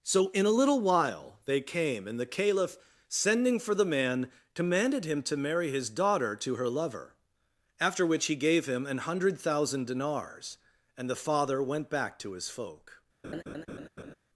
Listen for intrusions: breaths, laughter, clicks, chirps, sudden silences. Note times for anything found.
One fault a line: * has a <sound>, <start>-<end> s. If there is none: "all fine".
* has a laugh, 13.2-14.1 s